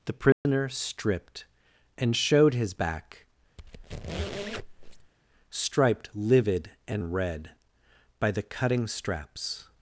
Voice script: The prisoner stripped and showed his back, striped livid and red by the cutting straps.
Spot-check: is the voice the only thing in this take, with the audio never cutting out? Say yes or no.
no